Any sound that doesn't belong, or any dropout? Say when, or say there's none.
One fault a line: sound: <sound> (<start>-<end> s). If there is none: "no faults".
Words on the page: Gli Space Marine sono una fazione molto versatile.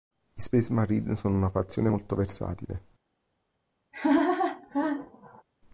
sound: laugh (3.9-5.4 s)